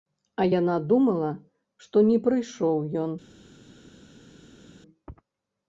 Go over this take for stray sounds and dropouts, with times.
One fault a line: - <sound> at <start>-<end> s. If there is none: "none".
none